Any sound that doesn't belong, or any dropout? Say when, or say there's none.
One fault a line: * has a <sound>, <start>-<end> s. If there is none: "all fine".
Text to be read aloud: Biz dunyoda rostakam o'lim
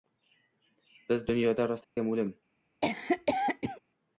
* has a dropout, 1.8-2.0 s
* has a cough, 2.8-3.8 s